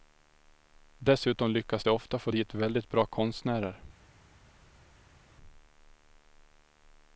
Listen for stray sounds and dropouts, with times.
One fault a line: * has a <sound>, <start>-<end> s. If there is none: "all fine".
all fine